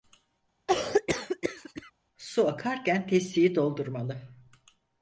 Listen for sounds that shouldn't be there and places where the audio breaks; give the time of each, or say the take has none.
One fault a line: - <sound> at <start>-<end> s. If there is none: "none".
- cough at 0.7-1.9 s